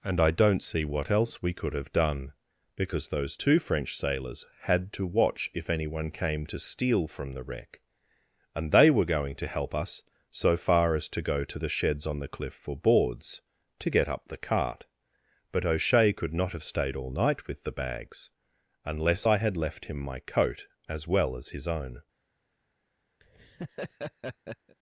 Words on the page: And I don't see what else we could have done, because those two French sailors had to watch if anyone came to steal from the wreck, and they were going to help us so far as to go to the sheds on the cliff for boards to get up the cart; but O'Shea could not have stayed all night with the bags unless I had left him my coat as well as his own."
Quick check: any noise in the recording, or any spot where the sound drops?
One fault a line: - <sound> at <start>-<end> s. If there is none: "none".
- laugh at 23.2-24.8 s